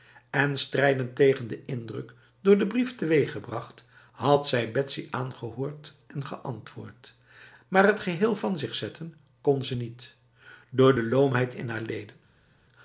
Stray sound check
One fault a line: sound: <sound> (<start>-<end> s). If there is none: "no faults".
no faults